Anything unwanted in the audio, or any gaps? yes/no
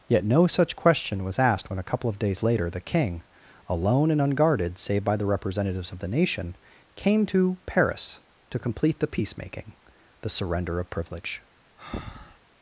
yes